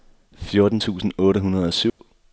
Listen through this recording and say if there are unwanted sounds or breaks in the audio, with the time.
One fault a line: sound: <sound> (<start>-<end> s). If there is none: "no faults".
sound: dropout (1.9-2.0 s)